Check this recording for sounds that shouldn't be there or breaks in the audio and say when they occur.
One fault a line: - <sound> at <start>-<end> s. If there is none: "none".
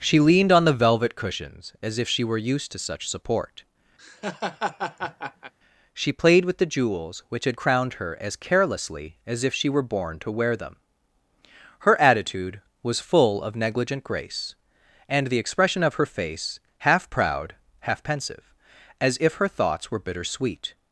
- laugh at 4.0-5.5 s